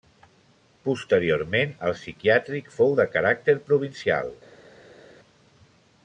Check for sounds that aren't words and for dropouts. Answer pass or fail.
pass